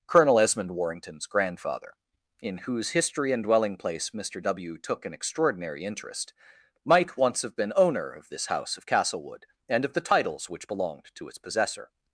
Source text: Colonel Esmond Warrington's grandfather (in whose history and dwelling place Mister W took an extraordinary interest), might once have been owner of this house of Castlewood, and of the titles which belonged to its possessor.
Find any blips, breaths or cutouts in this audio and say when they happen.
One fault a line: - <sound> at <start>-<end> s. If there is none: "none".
none